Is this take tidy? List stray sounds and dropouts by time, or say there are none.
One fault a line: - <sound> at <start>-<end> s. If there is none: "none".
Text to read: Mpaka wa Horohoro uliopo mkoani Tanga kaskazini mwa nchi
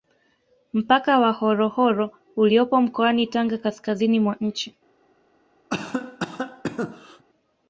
- cough at 5.7-7.2 s